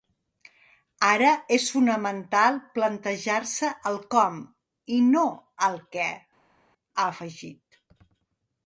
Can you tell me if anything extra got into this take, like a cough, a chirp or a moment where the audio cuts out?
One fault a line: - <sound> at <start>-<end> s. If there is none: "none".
none